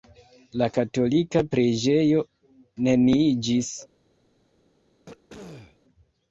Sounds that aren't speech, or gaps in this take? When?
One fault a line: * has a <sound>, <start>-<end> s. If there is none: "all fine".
* has a throat clearing, 5.1-5.8 s